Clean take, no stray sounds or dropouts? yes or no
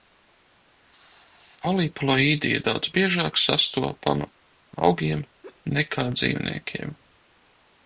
no